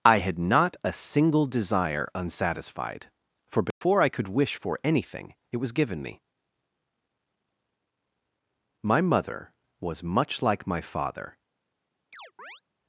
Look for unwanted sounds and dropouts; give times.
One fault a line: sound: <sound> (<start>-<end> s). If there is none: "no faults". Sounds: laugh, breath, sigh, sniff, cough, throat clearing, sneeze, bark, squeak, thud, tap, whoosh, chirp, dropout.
sound: dropout (3.7-3.8 s)
sound: chirp (12.1-12.6 s)